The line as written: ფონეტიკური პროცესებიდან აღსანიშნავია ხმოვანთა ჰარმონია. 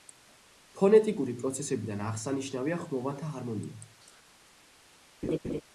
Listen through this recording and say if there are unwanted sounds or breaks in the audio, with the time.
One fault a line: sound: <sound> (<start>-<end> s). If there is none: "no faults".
sound: laugh (5.2-5.6 s)